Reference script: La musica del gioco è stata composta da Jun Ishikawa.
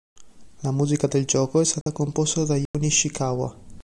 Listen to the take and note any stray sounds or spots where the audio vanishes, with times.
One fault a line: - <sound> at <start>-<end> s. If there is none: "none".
- dropout at 1.8-1.9 s
- dropout at 2.7-2.7 s